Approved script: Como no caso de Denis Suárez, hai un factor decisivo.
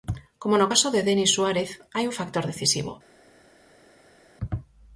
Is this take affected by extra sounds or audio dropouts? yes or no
no